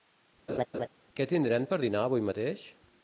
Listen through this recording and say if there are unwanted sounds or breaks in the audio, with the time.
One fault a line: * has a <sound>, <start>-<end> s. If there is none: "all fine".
* has a laugh, 0.5-0.9 s